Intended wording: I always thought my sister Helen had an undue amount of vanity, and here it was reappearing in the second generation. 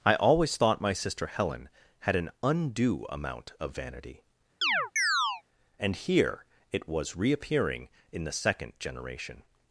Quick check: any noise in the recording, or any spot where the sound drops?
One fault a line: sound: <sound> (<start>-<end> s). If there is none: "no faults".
sound: chirp (4.6-5.4 s)